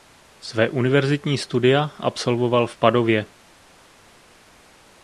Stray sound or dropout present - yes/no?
no